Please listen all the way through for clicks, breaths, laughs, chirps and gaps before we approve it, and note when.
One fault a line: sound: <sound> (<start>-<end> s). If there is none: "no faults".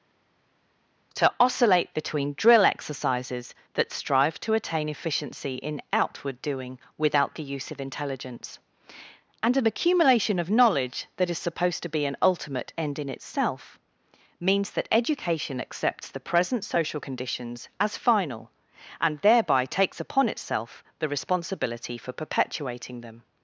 no faults